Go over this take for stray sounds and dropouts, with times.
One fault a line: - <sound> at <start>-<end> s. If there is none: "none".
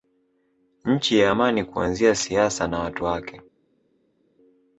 none